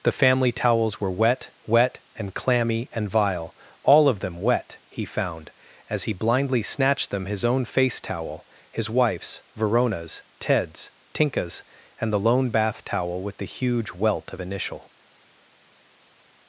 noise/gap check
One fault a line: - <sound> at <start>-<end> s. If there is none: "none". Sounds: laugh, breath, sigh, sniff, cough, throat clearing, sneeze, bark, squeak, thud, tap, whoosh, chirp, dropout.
none